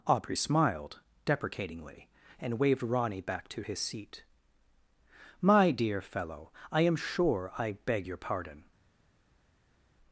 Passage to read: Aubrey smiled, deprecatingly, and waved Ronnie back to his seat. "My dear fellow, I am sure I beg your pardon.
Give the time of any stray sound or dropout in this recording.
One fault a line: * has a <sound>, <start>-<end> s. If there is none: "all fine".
all fine